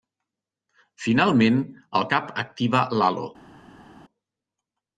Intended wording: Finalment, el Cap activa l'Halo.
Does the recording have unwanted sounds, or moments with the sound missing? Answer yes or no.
no